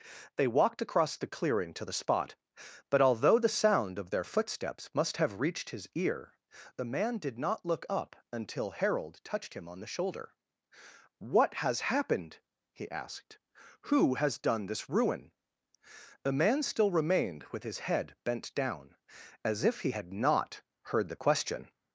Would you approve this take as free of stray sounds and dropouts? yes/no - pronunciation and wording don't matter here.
yes